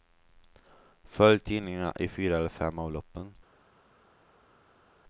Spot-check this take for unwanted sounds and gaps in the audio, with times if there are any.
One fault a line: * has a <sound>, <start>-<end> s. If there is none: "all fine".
all fine